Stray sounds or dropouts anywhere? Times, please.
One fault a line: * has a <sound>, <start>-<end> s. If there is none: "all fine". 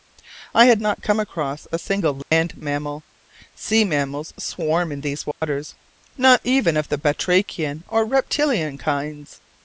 * has a dropout, 2.2-2.3 s
* has a dropout, 5.3-5.4 s